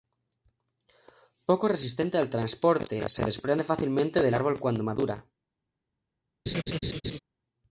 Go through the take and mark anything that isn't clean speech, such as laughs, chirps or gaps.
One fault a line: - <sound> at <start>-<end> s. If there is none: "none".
- laugh at 6.5-7.2 s